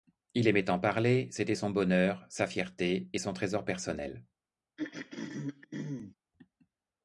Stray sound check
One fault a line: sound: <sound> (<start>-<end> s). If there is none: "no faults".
sound: throat clearing (4.8-6.1 s)